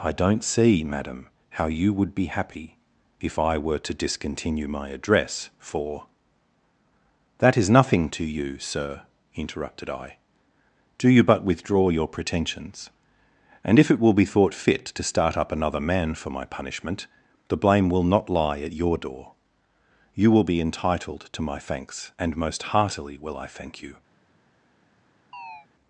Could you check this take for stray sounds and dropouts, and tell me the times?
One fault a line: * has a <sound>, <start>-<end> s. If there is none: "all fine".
* has a chirp, 25.3-25.7 s